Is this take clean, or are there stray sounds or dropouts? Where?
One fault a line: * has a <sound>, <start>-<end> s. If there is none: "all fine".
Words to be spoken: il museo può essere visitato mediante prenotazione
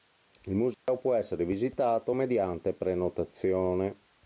* has a dropout, 0.7-0.9 s